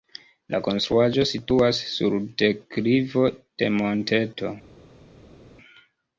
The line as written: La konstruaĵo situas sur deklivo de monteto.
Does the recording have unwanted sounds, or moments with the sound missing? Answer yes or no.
no